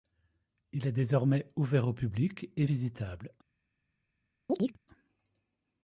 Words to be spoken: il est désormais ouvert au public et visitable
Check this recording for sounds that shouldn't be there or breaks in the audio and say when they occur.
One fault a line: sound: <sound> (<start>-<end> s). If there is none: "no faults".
sound: chirp (4.5-4.8 s)